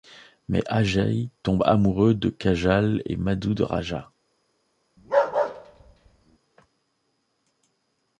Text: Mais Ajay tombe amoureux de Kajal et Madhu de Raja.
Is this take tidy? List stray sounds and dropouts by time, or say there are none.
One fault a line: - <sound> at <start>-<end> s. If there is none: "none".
- bark at 5.0-6.4 s